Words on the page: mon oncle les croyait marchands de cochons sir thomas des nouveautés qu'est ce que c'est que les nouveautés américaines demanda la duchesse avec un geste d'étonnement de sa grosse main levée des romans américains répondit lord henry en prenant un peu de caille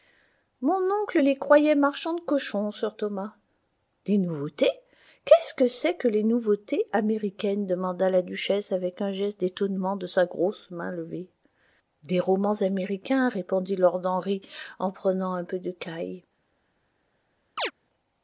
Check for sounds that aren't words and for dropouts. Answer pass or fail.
fail